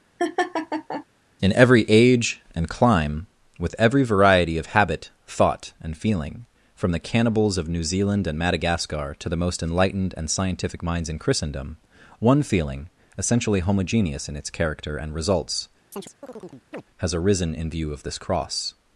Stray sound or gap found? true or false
true